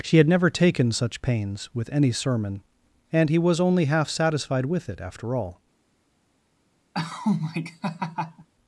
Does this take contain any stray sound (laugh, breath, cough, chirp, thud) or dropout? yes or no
yes